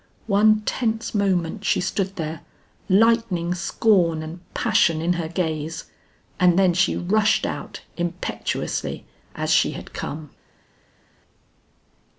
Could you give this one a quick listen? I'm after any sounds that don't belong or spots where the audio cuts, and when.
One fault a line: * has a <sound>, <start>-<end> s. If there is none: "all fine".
all fine